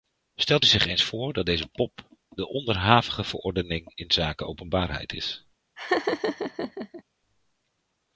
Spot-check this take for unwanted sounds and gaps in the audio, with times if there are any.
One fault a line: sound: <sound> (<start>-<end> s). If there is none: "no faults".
sound: laugh (5.8-7.0 s)